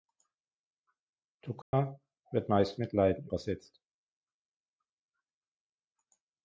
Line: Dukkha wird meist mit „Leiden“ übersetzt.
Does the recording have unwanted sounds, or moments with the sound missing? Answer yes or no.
yes